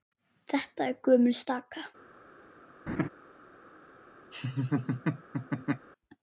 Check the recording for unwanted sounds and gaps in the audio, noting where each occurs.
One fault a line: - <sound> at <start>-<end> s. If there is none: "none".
- laugh at 2.9-3.1 s
- laugh at 4.3-5.9 s